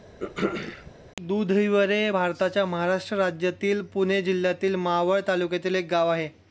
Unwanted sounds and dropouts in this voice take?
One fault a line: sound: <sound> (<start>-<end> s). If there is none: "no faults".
sound: throat clearing (0.2-0.9 s)